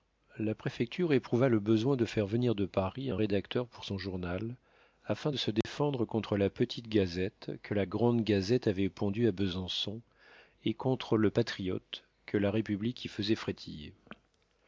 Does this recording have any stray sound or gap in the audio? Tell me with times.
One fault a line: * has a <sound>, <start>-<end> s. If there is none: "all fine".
* has a dropout, 5.6-5.6 s